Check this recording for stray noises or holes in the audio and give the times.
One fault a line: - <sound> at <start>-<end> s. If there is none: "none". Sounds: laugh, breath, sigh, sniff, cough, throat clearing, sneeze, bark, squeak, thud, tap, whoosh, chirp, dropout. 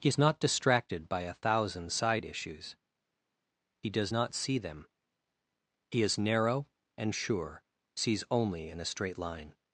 none